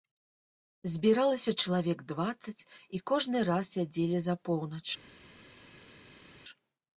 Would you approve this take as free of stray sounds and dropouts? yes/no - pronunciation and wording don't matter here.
yes